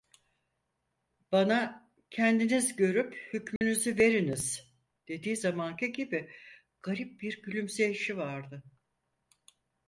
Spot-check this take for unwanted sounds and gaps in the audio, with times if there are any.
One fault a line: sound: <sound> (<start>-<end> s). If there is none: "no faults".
sound: dropout (3.6-3.6 s)